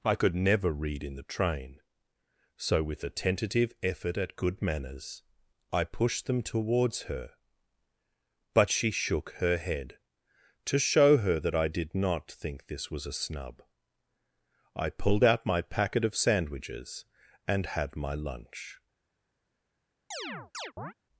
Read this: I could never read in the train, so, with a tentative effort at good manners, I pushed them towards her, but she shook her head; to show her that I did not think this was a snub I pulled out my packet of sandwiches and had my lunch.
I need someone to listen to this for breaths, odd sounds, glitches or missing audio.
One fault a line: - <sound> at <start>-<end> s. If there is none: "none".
- chirp at 20.1-20.9 s